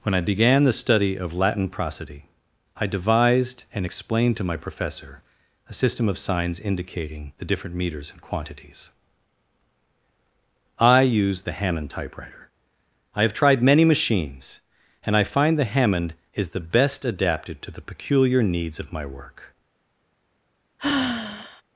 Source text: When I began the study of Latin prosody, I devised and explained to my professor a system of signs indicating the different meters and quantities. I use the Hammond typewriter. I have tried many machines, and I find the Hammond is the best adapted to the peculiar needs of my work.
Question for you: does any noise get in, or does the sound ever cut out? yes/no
yes